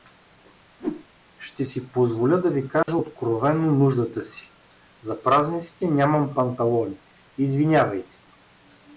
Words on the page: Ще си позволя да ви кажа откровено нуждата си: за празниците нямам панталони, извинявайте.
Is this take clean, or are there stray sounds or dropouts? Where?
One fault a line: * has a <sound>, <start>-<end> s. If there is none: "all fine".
* has a whoosh, 0.8-1.1 s
* has a dropout, 2.8-2.9 s